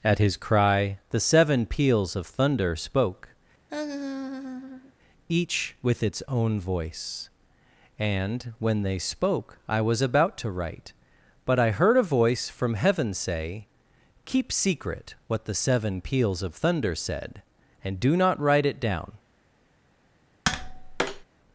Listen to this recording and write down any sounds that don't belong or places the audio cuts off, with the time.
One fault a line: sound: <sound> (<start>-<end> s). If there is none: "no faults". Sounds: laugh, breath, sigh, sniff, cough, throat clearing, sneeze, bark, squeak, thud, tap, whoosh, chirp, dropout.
sound: laugh (3.7-4.9 s)
sound: tap (20.4-21.2 s)